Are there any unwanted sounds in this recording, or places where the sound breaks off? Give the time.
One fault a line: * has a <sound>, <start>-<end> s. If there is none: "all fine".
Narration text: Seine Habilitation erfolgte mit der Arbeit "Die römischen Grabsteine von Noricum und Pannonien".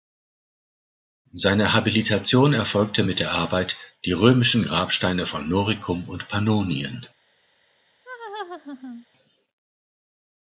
* has a laugh, 8.0-9.1 s